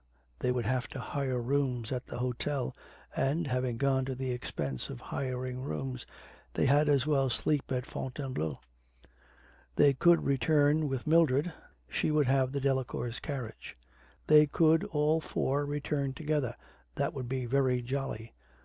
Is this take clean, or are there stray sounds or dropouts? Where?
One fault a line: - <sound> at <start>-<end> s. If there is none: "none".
none